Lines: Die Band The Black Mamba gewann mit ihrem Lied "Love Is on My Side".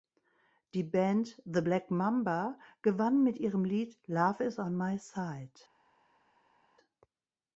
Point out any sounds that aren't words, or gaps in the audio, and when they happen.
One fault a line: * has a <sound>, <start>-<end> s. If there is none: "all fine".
all fine